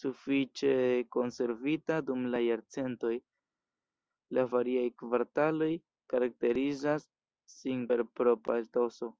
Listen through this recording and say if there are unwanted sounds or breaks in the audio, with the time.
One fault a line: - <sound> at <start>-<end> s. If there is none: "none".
none